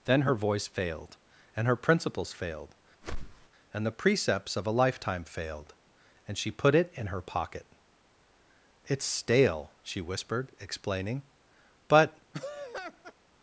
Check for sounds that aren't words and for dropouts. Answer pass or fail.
fail